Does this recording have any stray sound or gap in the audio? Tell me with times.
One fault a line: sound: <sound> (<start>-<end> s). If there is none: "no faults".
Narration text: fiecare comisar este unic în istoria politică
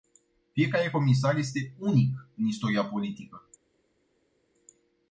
no faults